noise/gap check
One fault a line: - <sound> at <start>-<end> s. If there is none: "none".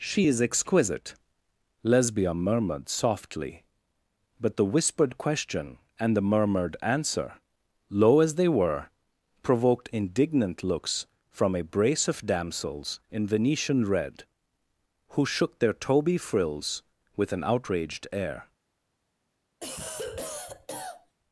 - cough at 19.6-21.2 s